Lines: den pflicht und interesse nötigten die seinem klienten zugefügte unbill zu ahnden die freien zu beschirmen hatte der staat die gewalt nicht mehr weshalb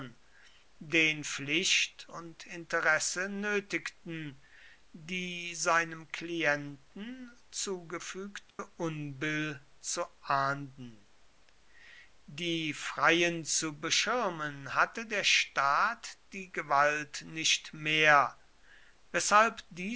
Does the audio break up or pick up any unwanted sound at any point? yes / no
yes